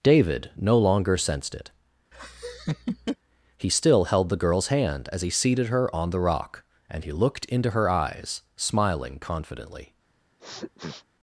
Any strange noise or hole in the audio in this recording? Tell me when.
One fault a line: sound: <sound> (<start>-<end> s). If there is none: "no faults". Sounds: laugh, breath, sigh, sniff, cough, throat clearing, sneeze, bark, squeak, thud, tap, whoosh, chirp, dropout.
sound: laugh (2.1-3.2 s)
sound: sniff (10.4-11.0 s)